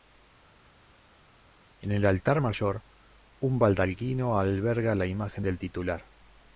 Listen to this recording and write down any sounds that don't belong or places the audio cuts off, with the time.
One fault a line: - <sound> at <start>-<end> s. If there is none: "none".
none